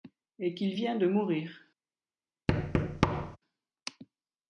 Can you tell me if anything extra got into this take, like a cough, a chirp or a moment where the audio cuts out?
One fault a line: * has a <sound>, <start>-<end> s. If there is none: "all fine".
* has a thud, 2.5-3.4 s